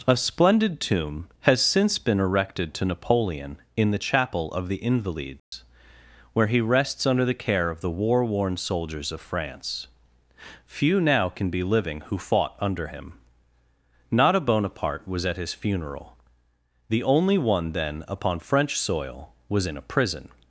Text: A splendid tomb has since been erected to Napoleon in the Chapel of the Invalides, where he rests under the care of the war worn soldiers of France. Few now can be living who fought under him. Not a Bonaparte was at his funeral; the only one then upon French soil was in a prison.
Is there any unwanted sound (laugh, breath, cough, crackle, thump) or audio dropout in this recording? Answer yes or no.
yes